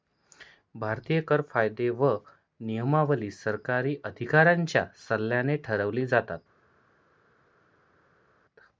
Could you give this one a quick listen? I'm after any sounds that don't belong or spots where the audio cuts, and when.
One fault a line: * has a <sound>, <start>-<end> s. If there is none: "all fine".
all fine